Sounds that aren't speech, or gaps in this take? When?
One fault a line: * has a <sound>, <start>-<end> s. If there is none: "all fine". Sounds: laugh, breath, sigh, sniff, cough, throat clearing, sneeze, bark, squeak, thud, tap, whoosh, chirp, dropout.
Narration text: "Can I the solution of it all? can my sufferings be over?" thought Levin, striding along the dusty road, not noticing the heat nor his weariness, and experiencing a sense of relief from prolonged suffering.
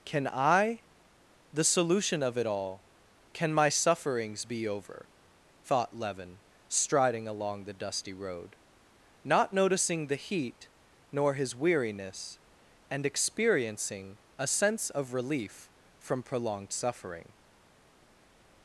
all fine